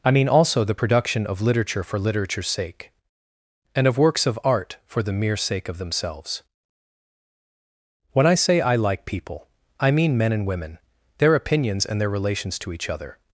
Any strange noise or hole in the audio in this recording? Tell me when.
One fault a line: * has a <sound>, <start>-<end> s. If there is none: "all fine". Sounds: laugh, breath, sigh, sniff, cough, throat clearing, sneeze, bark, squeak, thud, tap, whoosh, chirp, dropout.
all fine